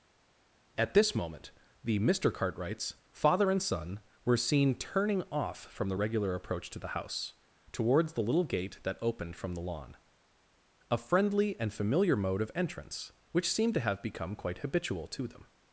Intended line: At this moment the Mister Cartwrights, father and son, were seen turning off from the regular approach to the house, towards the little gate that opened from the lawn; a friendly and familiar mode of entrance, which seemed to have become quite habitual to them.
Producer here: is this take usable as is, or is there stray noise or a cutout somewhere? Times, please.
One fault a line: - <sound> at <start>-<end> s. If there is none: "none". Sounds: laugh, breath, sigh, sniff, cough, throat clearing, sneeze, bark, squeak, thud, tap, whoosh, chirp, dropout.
none